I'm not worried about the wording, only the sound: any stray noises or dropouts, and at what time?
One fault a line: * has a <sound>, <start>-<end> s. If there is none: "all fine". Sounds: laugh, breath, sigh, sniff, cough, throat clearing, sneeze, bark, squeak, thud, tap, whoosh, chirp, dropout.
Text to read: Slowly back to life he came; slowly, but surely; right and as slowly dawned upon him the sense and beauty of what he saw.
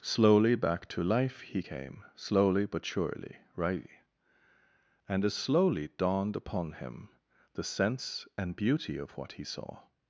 all fine